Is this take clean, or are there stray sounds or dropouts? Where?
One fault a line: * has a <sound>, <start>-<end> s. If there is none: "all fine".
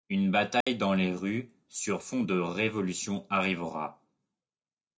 * has a dropout, 0.6-0.7 s